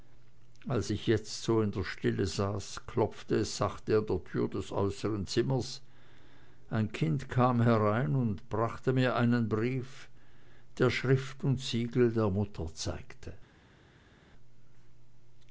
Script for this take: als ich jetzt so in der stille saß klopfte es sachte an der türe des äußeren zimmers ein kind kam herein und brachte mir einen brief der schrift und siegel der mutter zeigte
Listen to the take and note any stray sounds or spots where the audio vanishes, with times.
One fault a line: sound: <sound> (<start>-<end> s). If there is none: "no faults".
no faults